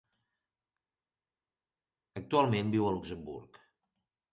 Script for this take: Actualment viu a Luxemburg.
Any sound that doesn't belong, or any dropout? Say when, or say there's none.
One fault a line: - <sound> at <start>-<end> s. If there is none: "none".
none